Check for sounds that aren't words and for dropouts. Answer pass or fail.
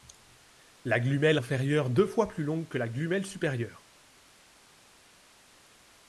pass